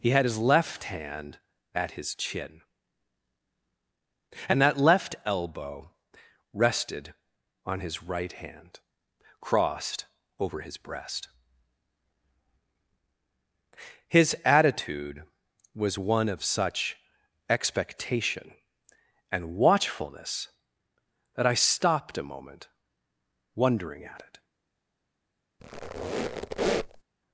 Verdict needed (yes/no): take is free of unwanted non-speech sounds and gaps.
no